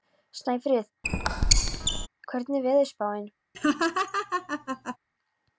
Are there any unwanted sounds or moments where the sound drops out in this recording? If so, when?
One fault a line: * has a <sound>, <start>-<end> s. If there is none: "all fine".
* has a squeak, 1.0-2.1 s
* has a laugh, 3.5-5.0 s